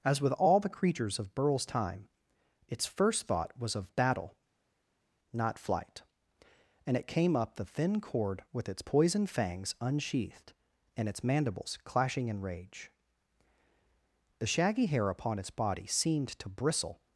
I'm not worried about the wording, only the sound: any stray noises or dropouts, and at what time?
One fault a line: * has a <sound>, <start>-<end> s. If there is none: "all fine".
all fine